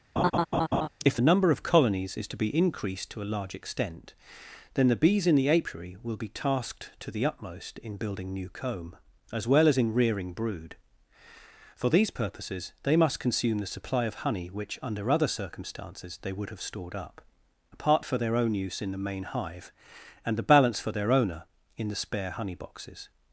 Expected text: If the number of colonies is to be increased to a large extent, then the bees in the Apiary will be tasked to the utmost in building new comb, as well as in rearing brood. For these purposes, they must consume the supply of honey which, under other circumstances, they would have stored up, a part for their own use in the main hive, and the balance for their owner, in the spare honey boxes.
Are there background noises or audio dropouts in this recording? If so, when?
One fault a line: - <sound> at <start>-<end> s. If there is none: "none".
- laugh at 0.2-0.9 s